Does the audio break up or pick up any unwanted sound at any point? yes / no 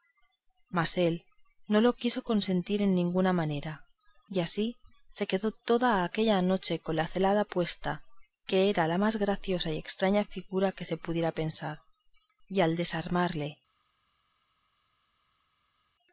no